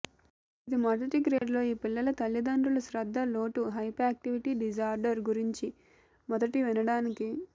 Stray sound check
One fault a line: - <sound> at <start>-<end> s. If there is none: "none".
- dropout at 1.4-1.4 s